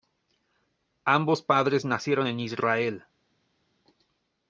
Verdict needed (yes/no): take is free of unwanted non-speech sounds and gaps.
yes